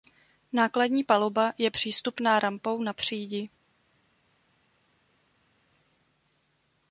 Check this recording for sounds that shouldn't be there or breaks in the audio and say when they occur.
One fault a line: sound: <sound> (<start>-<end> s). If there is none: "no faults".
no faults